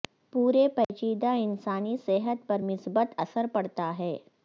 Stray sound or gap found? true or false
true